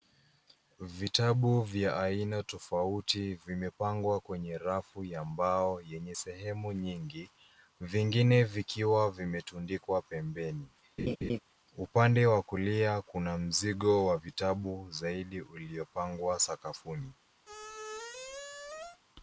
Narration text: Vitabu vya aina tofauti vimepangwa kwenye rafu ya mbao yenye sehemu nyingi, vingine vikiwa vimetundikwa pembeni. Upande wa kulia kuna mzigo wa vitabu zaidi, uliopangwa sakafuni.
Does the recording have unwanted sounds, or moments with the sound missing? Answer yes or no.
yes